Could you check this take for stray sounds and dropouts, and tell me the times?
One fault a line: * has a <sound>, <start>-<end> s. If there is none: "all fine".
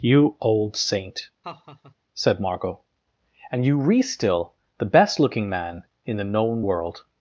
* has a laugh, 1.4-1.9 s